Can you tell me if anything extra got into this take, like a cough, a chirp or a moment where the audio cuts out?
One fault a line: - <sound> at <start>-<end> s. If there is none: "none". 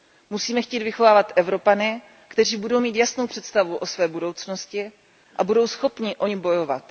none